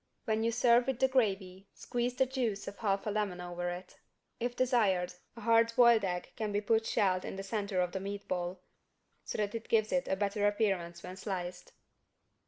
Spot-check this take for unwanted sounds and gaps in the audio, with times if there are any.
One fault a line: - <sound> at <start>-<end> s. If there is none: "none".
none